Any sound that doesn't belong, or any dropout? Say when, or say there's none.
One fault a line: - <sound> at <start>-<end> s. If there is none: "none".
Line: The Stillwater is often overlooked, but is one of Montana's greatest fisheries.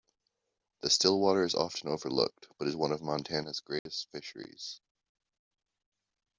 - dropout at 3.8-3.9 s